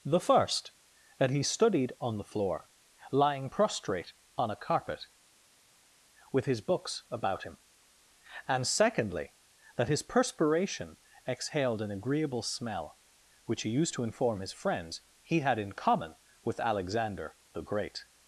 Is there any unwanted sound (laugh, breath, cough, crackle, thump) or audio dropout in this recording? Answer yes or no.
no